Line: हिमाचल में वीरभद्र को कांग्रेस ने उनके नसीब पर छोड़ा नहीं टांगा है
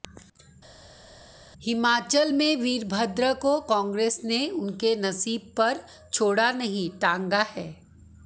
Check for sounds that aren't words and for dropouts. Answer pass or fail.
pass